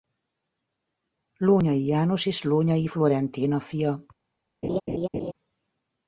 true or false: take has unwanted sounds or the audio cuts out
true